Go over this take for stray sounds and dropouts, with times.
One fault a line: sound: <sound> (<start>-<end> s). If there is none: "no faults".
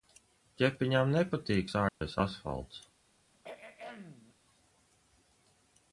sound: dropout (1.9-2.0 s)
sound: throat clearing (3.3-4.3 s)